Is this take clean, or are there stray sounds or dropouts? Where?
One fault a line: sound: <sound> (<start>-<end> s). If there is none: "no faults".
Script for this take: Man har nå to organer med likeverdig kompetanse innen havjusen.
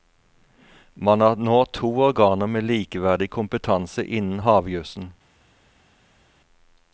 no faults